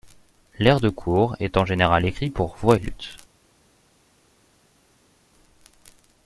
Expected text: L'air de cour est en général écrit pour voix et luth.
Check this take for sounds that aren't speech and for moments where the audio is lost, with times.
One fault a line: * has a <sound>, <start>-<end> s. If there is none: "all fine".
all fine